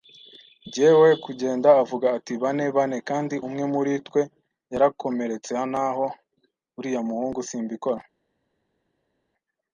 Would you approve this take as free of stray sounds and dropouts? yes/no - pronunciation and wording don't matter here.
yes